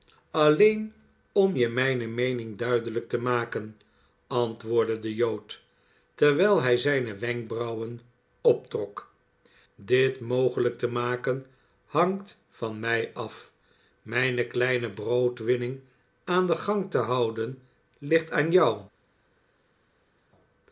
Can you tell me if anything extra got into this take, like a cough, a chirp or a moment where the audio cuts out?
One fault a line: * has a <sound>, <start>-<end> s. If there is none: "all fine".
all fine